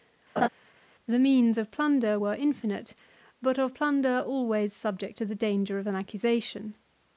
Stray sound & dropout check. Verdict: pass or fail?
fail